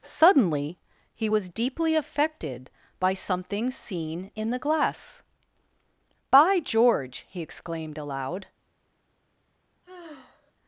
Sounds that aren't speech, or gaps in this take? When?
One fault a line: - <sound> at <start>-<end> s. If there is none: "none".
- sigh at 9.8-10.5 s